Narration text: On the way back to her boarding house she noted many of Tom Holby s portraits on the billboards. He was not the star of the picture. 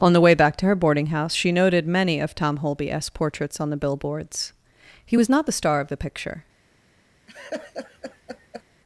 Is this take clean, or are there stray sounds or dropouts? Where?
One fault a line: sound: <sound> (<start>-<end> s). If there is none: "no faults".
sound: laugh (7.3-8.6 s)